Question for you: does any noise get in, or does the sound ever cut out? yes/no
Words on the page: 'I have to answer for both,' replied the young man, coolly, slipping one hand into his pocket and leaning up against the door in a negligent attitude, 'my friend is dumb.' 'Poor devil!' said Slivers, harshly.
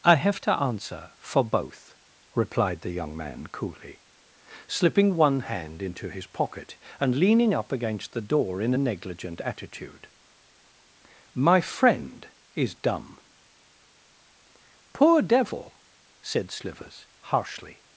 no